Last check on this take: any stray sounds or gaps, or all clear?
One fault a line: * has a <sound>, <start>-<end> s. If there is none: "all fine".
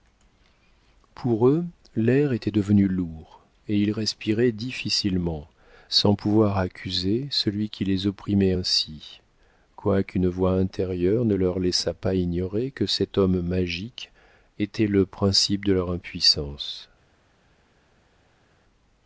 all fine